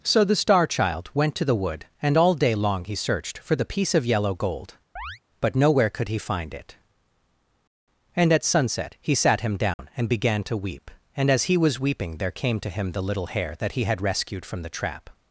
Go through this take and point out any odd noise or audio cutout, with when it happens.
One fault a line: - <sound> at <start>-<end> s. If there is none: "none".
- chirp at 5.0-5.2 s
- dropout at 9.7-9.8 s